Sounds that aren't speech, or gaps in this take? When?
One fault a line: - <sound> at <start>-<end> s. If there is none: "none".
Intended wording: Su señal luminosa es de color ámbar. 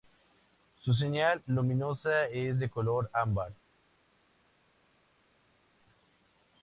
none